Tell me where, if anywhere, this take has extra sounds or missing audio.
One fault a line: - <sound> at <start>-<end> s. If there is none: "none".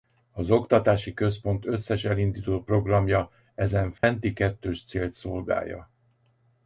- dropout at 4.0-4.0 s